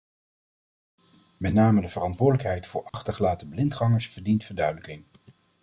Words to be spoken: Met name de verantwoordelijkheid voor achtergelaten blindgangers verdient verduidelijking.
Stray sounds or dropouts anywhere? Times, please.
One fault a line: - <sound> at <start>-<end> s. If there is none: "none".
- dropout at 2.9-2.9 s